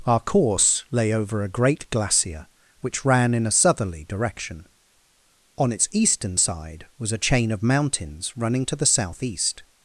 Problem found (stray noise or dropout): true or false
false